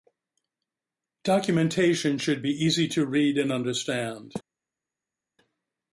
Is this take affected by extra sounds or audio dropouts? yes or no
no